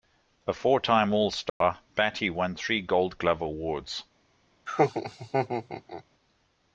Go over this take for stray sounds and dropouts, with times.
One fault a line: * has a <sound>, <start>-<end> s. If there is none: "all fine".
* has a dropout, 1.5-1.6 s
* has a laugh, 4.7-6.0 s